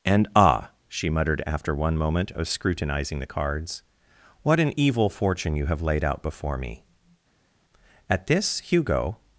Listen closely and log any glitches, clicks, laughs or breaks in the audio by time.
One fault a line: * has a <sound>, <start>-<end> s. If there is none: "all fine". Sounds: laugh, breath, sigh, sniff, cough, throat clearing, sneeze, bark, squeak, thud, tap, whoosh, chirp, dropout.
all fine